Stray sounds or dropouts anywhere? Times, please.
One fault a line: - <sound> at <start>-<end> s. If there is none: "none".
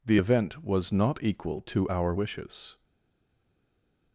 none